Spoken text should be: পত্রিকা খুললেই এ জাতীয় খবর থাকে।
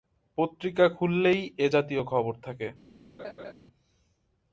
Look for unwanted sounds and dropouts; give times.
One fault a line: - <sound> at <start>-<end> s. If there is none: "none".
- laugh at 3.2-3.5 s